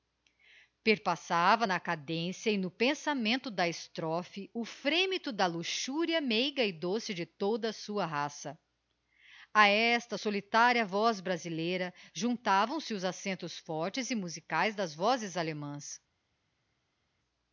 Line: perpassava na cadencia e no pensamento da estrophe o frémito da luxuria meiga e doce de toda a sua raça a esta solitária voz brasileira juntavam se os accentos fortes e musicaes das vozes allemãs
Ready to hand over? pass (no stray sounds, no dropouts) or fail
pass